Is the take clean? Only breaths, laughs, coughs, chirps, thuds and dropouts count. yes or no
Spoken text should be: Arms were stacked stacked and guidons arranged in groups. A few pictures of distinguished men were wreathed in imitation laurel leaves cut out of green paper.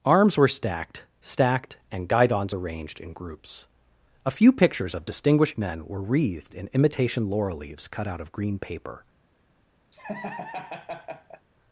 no